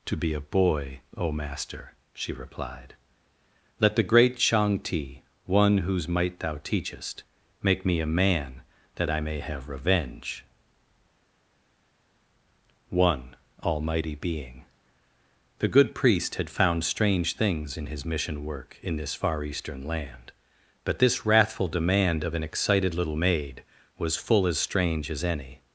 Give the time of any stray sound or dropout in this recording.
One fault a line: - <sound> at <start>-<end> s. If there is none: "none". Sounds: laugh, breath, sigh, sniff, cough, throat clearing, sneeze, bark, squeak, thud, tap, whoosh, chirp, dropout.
none